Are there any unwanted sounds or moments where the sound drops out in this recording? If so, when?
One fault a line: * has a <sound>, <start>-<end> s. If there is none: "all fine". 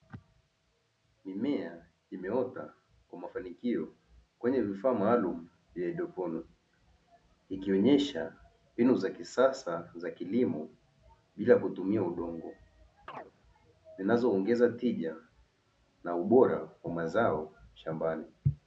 * has a chirp, 13.1-13.3 s